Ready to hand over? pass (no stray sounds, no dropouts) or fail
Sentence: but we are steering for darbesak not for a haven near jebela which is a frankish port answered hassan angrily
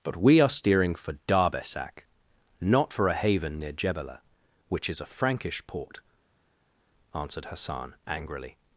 pass